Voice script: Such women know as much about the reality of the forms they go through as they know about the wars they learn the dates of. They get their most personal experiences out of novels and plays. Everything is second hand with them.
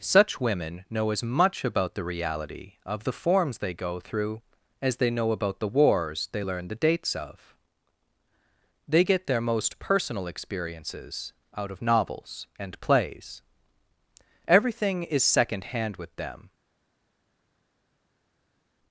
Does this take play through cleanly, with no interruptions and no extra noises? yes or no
yes